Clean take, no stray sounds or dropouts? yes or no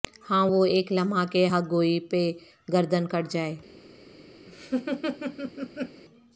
no